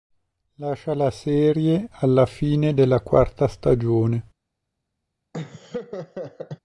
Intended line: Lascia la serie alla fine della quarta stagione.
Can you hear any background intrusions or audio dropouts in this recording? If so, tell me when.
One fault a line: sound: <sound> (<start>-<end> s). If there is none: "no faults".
sound: laugh (5.3-6.6 s)